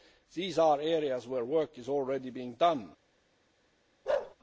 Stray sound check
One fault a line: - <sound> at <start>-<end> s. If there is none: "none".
- bark at 4.1-4.4 s